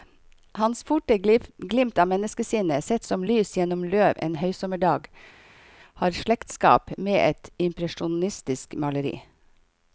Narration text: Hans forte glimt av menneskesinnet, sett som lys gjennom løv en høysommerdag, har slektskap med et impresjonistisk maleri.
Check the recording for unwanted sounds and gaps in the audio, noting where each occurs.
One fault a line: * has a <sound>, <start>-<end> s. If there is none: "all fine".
all fine